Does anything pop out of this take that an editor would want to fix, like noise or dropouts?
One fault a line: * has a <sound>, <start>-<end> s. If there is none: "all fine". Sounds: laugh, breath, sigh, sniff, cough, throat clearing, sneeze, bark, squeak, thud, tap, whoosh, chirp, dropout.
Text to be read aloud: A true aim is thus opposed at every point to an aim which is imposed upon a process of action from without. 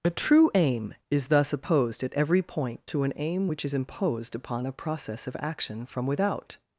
all fine